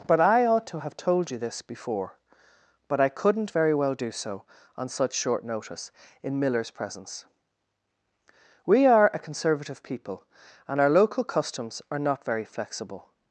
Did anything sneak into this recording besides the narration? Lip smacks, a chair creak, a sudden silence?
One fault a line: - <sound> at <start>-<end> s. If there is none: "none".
none